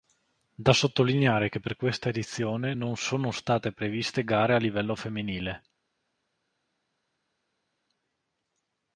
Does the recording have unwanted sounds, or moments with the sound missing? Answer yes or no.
no